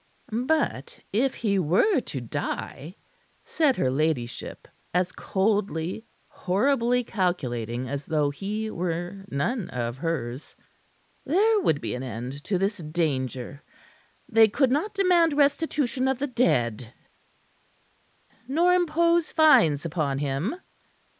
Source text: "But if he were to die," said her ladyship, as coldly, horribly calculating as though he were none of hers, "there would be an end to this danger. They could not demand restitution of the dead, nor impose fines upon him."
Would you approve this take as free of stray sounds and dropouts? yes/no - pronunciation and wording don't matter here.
yes